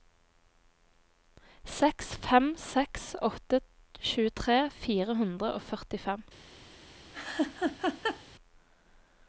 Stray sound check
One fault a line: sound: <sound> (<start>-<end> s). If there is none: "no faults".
sound: laugh (7.1-8.2 s)